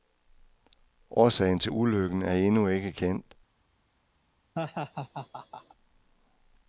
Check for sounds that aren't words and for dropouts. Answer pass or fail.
fail